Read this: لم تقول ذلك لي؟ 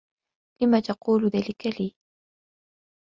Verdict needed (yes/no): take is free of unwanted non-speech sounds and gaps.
yes